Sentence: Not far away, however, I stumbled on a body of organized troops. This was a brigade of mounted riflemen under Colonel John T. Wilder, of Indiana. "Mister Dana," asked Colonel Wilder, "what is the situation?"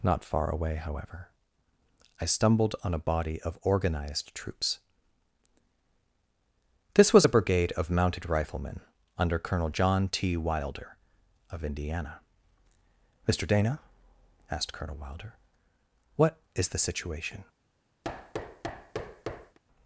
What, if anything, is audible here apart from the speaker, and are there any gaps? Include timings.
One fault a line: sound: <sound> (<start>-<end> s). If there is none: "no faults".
sound: thud (18.0-19.6 s)